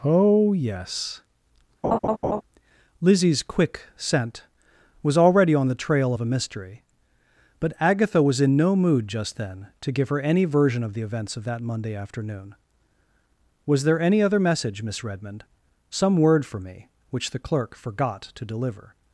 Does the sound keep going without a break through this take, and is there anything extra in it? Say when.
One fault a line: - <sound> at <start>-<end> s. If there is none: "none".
- laugh at 1.8-2.4 s